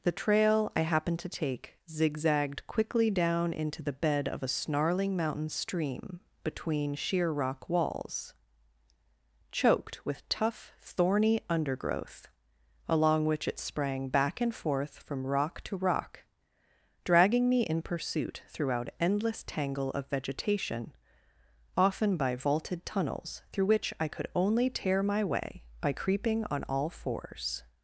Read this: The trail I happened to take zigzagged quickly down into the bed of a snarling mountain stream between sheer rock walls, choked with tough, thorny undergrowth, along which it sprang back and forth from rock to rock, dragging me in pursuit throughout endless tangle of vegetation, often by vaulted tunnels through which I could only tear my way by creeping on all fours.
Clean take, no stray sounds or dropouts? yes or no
yes